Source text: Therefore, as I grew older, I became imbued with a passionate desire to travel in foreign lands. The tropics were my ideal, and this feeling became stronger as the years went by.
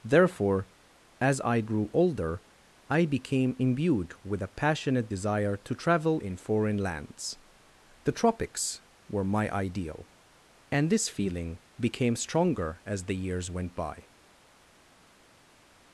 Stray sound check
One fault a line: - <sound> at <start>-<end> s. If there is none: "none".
none